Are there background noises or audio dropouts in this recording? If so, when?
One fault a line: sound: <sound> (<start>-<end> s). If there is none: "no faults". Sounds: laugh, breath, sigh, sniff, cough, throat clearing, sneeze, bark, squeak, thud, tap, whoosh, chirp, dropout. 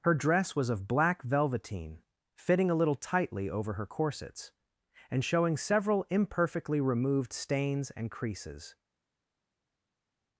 no faults